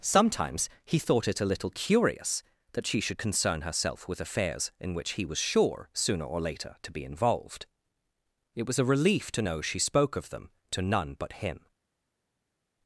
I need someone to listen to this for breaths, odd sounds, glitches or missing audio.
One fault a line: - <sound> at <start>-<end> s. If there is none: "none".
none